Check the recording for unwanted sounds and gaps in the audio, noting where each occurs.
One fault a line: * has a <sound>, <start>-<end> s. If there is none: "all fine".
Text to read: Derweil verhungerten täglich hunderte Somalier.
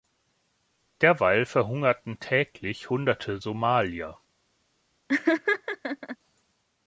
* has a laugh, 5.1-6.2 s